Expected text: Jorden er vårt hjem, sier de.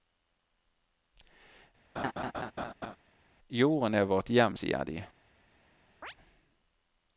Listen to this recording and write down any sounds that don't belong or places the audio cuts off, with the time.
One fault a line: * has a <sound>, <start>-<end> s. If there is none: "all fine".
* has a laugh, 2.0-3.0 s
* has a chirp, 6.0-6.1 s